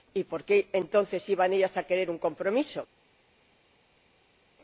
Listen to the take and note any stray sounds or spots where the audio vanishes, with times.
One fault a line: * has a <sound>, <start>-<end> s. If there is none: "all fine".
all fine